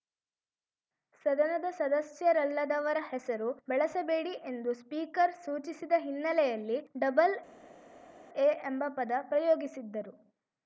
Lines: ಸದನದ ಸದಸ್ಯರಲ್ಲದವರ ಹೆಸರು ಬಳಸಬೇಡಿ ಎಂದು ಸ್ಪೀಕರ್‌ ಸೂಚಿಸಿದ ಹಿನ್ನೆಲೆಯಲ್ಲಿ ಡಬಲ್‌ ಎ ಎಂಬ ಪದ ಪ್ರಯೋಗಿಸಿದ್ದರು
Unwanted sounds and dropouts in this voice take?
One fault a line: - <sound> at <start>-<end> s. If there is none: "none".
none